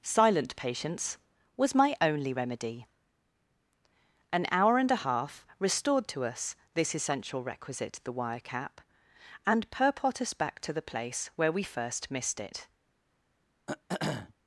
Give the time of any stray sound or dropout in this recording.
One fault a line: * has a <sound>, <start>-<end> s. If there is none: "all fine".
* has a throat clearing, 13.7-14.3 s